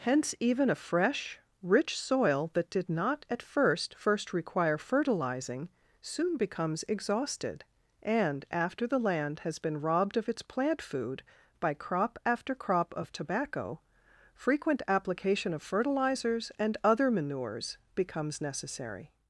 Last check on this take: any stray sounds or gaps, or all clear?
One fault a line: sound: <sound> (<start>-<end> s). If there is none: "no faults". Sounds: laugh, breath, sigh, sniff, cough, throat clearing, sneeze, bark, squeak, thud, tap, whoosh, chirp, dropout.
no faults